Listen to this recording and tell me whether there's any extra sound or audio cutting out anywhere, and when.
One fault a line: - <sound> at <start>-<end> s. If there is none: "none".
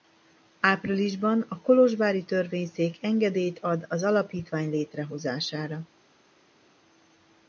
none